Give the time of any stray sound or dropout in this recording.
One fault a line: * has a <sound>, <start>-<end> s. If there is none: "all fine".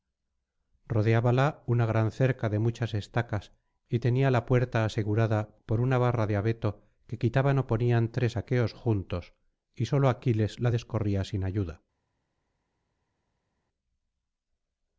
all fine